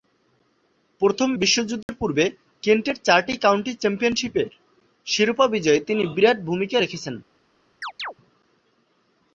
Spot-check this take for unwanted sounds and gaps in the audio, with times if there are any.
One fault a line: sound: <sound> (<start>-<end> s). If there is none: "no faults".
sound: dropout (1.8-1.9 s)
sound: chirp (7.8-8.1 s)